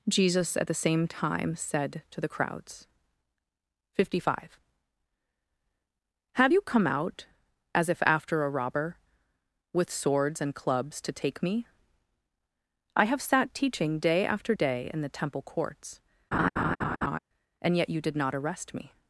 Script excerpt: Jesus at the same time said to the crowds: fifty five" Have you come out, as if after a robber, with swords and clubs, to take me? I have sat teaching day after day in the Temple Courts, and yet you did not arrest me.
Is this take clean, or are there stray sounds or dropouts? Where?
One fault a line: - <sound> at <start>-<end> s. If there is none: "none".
- laugh at 16.3-17.2 s